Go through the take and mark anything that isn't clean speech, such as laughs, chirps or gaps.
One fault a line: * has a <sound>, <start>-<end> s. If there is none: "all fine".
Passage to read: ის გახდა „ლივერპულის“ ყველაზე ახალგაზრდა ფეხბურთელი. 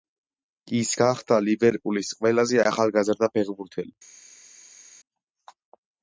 all fine